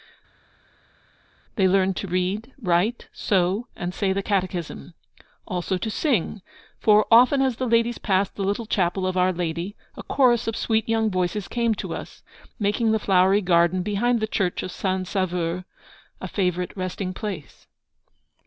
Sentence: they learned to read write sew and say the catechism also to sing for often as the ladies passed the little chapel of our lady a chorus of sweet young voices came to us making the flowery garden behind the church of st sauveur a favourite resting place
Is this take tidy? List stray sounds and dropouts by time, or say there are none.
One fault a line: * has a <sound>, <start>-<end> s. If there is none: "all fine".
all fine